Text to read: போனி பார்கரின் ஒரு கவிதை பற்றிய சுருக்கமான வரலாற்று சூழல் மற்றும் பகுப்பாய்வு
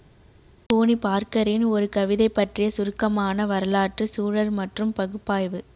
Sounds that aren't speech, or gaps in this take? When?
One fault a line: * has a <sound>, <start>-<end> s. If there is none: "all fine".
all fine